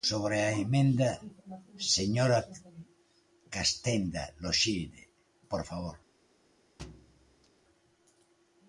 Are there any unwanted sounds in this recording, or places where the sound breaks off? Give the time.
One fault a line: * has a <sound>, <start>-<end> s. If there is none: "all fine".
* has a thud, 6.8-7.5 s